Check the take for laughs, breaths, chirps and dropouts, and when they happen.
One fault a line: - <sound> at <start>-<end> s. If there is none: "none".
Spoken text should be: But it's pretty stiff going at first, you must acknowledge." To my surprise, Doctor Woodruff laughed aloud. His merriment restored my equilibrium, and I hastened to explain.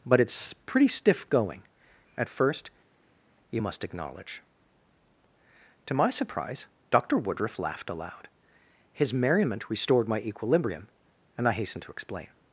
none